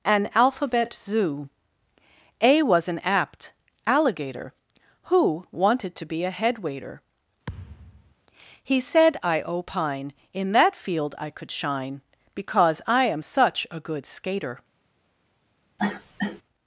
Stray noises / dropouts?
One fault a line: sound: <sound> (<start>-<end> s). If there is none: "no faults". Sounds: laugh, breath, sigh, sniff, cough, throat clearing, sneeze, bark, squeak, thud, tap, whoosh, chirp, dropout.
sound: thud (7.5-8.1 s)
sound: cough (15.8-16.4 s)